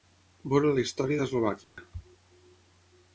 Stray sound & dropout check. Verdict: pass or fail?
fail